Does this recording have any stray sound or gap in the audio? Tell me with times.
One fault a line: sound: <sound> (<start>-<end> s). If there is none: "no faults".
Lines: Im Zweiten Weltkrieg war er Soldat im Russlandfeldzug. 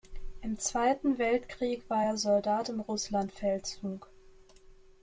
no faults